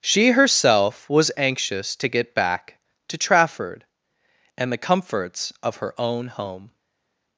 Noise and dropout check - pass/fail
pass